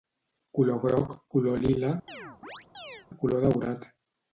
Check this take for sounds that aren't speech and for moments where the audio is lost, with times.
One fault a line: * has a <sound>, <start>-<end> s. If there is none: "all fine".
* has a chirp, 2.1-3.1 s